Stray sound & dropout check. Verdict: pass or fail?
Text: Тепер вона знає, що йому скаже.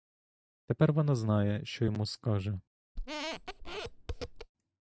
fail